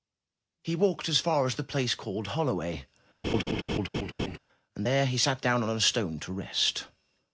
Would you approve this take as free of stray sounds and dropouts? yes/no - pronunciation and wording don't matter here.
no